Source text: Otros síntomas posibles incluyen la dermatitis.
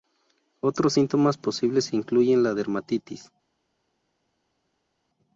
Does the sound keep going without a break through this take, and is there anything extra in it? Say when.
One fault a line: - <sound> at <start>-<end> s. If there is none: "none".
none